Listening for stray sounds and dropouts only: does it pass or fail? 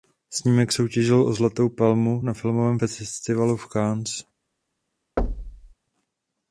fail